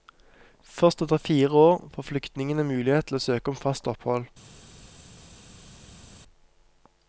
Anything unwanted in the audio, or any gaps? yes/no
no